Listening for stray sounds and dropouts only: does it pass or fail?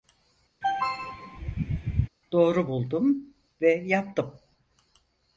fail